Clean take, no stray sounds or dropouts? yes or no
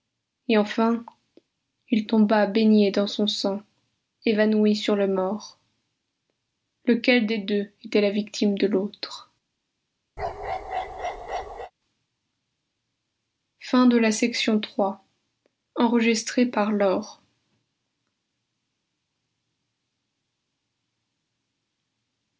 no